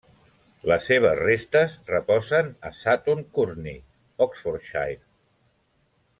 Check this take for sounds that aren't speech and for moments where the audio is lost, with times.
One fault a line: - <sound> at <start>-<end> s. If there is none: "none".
none